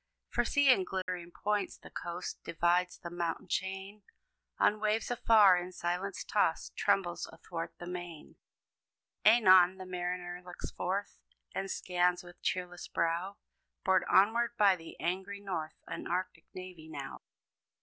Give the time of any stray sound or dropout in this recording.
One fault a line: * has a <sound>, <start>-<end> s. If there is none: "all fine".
* has a dropout, 1.0-1.1 s